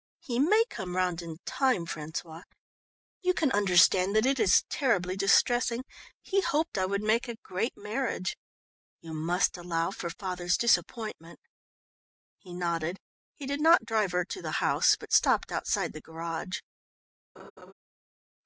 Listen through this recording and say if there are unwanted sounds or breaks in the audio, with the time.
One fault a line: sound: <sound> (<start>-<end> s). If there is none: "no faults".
sound: laugh (17.4-17.7 s)